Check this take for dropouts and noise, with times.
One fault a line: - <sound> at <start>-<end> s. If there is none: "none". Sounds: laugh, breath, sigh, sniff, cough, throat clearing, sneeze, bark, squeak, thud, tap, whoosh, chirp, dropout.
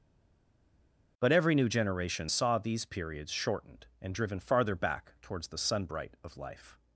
none